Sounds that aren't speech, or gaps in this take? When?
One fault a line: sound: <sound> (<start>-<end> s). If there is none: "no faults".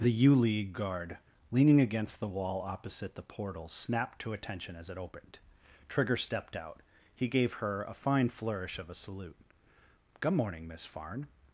no faults